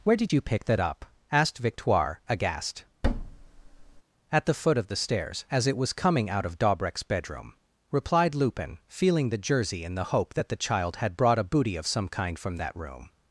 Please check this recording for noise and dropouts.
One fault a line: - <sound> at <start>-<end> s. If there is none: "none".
- thud at 3.0-4.0 s